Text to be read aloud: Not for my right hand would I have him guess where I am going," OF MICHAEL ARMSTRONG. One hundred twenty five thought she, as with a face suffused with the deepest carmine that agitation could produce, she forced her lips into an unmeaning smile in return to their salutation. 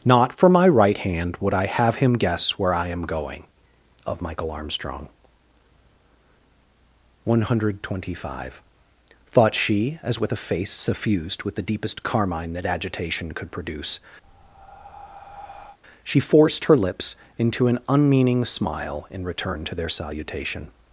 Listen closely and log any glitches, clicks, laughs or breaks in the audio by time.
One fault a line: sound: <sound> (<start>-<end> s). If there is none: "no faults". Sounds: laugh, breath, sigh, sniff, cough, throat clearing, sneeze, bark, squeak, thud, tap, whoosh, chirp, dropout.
sound: breath (14.2-15.8 s)